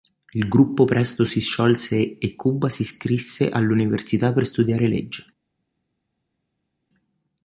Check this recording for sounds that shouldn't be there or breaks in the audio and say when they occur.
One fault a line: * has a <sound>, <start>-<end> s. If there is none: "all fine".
all fine